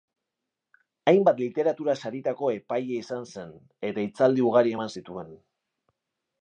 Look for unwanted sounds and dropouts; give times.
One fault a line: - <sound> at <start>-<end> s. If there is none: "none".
none